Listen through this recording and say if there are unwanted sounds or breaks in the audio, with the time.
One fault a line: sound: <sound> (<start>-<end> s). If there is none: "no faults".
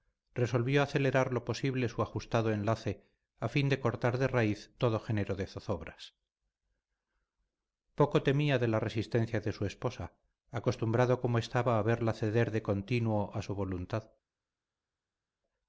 no faults